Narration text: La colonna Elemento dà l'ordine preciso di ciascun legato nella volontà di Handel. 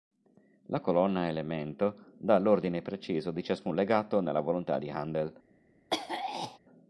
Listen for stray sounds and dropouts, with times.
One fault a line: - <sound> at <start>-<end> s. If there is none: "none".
- throat clearing at 5.9-6.6 s